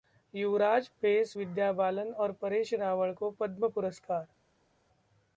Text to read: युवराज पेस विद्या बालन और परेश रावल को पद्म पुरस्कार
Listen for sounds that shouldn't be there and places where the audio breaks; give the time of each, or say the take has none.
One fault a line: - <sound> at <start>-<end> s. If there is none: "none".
none